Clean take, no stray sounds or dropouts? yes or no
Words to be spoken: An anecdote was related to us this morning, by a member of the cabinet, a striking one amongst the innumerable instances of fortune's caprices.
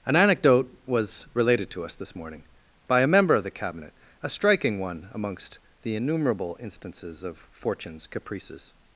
yes